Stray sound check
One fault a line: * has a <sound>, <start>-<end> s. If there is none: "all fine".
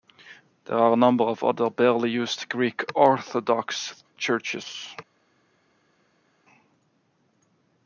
all fine